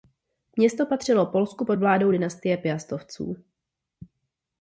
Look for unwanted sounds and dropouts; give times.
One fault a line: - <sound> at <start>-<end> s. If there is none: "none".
none